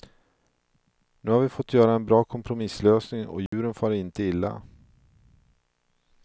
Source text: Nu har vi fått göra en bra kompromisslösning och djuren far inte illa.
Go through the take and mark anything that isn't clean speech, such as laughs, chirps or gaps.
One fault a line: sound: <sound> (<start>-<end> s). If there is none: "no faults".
sound: dropout (3.5-3.5 s)